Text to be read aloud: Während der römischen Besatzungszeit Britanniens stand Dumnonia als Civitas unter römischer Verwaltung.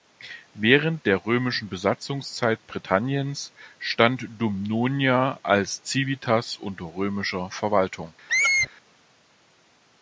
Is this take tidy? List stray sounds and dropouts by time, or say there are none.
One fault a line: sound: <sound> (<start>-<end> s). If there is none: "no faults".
sound: squeak (8.3-8.7 s)